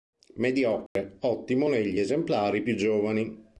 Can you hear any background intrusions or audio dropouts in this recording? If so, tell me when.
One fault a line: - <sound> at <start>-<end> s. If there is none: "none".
- dropout at 0.9-1.0 s